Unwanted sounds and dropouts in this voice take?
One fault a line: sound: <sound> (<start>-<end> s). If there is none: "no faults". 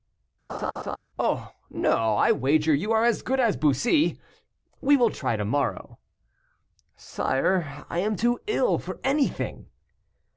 sound: laugh (0.5-1.0 s)